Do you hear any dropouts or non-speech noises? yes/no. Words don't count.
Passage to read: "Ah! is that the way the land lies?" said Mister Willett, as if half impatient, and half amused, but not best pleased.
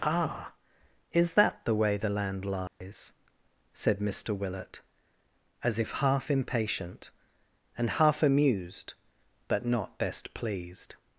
yes